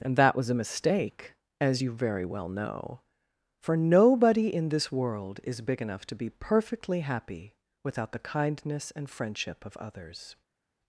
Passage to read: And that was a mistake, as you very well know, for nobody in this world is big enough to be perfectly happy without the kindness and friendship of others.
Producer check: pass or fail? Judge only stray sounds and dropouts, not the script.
pass